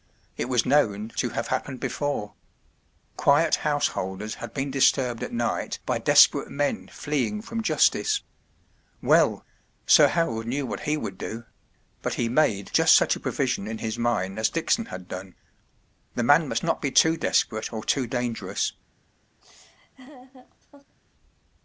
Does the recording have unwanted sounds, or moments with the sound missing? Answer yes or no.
yes